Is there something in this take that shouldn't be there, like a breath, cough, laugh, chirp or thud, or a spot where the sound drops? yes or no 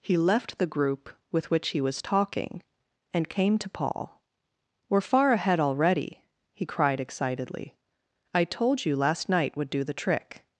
no